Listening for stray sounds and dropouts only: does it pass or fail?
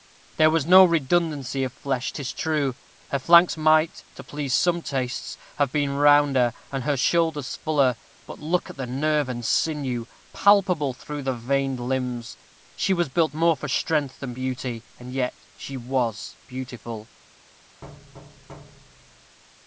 fail